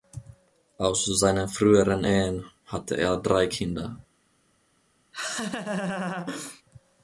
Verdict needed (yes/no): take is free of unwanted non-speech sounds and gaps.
no